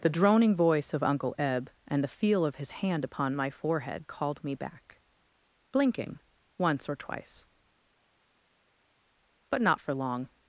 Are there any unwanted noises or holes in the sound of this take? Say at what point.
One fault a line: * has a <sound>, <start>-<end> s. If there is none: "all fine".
all fine